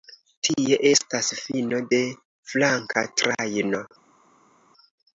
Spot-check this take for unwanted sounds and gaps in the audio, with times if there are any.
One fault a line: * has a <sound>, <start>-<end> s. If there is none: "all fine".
all fine